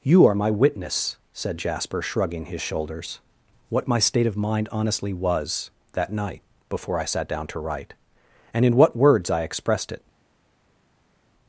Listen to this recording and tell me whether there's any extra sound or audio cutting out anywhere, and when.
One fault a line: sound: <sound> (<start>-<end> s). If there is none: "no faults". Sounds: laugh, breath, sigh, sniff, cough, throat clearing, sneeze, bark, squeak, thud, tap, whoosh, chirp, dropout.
no faults